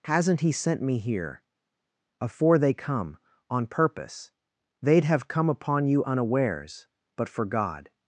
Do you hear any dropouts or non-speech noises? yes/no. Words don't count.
no